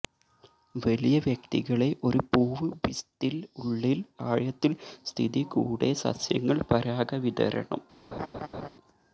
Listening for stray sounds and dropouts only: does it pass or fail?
fail